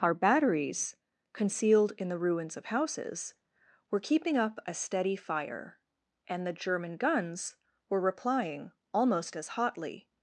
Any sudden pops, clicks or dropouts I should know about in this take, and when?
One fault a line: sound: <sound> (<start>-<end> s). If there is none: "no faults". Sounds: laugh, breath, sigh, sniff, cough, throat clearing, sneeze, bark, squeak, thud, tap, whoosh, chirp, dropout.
no faults